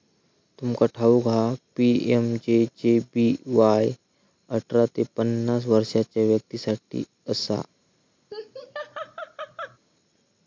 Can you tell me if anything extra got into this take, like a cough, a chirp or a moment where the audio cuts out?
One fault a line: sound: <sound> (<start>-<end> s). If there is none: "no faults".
sound: laugh (8.3-9.8 s)